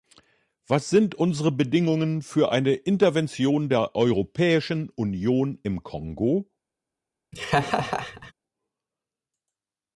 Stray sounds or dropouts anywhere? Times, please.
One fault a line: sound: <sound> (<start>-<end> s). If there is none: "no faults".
sound: laugh (7.3-8.3 s)